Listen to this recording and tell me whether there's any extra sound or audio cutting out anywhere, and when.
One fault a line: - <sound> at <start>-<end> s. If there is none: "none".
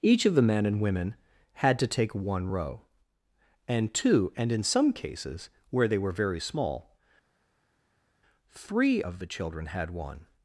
none